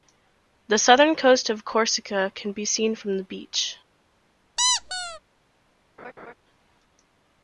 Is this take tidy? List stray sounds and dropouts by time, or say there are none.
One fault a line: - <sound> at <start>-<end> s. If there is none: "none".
- squeak at 4.6-5.2 s
- laugh at 6.0-6.3 s